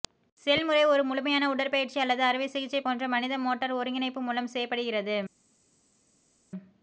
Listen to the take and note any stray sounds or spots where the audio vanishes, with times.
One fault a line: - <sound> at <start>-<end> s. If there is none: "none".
none